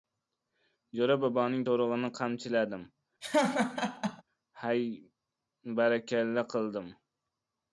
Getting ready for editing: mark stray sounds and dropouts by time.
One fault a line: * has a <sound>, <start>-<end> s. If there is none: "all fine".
* has a laugh, 3.2-4.2 s